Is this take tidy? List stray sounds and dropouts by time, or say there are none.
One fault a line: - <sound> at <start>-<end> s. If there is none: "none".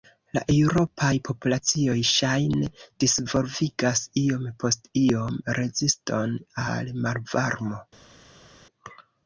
none